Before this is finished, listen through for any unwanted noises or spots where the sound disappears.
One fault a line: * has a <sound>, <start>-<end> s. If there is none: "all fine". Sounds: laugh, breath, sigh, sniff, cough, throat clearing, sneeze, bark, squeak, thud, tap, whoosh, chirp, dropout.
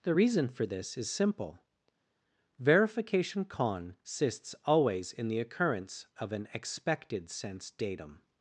all fine